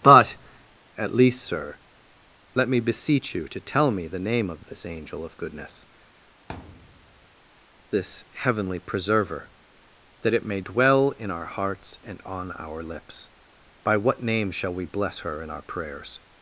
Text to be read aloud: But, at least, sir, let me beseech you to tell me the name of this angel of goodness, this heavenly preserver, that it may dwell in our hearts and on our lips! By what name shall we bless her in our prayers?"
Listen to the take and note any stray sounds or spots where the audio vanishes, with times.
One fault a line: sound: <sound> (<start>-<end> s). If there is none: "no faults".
sound: thud (6.5-7.3 s)